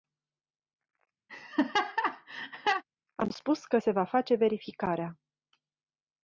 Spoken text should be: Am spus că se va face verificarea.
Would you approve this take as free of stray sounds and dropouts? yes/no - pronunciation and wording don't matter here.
no